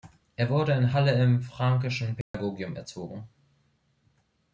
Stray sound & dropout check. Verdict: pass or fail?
fail